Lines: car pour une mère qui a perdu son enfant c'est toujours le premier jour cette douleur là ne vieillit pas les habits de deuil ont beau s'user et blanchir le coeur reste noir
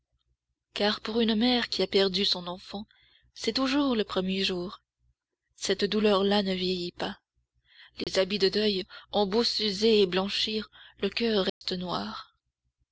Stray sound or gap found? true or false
true